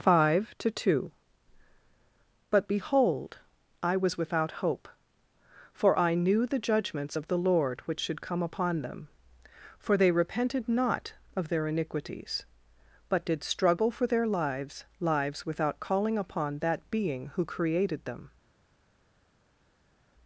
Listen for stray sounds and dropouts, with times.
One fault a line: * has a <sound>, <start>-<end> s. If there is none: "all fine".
all fine